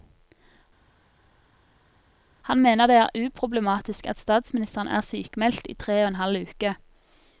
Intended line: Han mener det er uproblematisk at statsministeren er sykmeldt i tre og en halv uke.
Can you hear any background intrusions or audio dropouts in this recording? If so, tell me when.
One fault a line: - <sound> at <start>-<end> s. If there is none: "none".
none